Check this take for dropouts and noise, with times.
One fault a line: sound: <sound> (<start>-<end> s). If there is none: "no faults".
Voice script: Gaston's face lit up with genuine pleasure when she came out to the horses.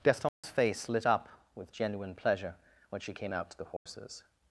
sound: dropout (0.3-0.4 s)
sound: dropout (3.8-3.9 s)